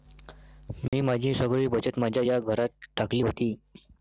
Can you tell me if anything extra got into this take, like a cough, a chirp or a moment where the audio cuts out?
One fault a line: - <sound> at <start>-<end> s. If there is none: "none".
- dropout at 0.9-0.9 s